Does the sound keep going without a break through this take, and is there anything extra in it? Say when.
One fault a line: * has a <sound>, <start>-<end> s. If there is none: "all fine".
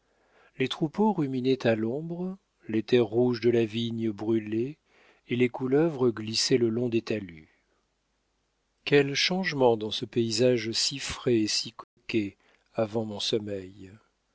* has a dropout, 11.8-12.0 s